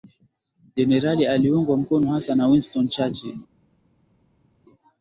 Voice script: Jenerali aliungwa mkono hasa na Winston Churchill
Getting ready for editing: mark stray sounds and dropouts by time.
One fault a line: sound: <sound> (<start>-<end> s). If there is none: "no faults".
no faults